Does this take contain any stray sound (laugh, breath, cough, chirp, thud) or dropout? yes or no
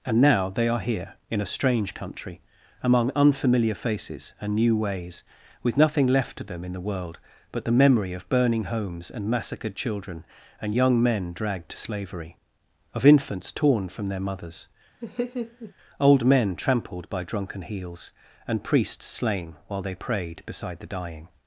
yes